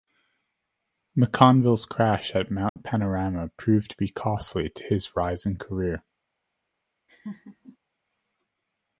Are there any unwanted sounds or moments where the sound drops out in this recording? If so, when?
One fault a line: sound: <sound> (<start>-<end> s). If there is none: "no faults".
sound: dropout (2.7-2.8 s)
sound: laugh (7.1-7.8 s)